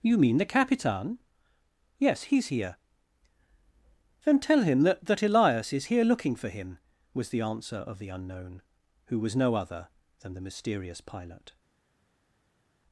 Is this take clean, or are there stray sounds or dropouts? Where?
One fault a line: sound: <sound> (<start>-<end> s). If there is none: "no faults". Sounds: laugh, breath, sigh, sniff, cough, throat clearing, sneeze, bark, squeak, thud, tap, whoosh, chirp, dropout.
no faults